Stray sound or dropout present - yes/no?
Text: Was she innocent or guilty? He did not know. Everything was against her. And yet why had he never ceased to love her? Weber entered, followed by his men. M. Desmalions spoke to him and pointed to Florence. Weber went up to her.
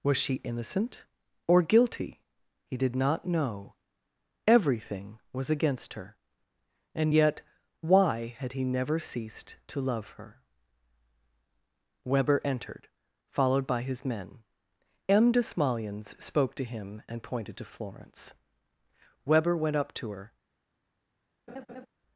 yes